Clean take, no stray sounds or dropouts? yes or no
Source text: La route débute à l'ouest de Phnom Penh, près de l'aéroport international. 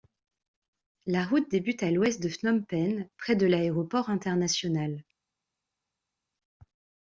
yes